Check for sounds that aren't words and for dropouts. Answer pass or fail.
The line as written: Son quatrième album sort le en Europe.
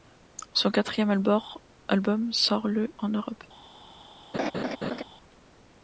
fail